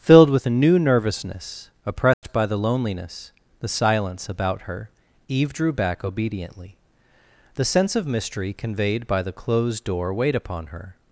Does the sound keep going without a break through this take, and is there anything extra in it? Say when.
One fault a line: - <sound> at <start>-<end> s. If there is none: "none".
- dropout at 2.1-2.2 s